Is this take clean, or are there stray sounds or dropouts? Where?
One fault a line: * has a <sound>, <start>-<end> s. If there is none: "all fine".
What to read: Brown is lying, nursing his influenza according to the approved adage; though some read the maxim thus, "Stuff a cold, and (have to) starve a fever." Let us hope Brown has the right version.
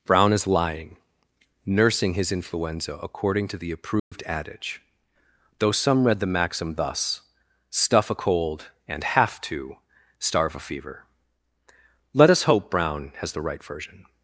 * has a dropout, 4.0-4.1 s